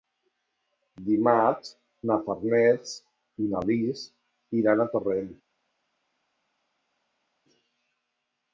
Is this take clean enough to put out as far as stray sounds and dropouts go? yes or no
yes